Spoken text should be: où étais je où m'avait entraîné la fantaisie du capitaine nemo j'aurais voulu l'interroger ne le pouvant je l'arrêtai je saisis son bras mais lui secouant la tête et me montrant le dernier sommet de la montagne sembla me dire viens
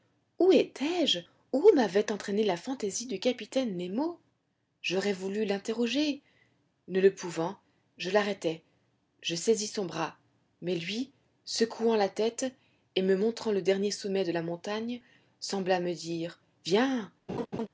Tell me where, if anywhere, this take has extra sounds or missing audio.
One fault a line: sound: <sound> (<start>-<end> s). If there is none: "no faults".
sound: laugh (17.3-17.7 s)